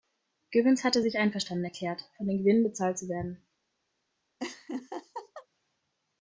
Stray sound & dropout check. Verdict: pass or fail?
fail